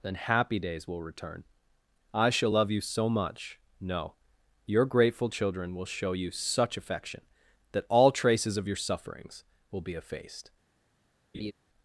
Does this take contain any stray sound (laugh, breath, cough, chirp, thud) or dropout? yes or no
yes